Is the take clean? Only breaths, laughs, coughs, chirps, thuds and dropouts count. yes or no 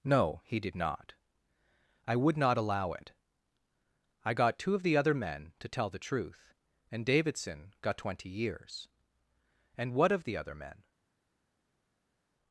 yes